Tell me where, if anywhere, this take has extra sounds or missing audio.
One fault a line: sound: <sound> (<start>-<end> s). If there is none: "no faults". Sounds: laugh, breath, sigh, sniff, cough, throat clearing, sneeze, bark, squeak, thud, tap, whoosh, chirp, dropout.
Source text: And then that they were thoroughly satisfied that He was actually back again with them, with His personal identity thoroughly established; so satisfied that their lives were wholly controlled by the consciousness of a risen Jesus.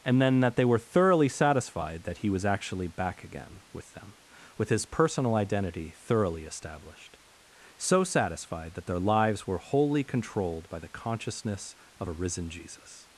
no faults